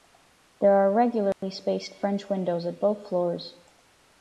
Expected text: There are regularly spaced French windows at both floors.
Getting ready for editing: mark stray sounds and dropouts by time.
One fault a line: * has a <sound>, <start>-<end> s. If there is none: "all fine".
* has a dropout, 1.3-1.4 s